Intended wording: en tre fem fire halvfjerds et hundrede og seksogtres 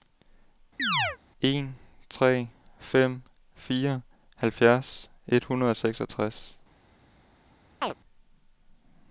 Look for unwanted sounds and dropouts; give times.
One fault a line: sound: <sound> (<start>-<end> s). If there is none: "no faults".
sound: chirp (0.8-1.2 s)
sound: chirp (7.8-7.9 s)